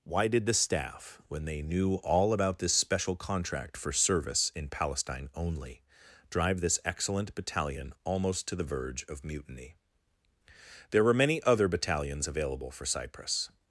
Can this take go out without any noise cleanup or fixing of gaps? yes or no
yes